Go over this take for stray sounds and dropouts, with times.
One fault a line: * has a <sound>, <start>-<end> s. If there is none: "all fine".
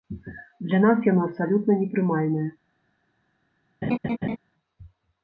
* has a laugh, 3.8-4.4 s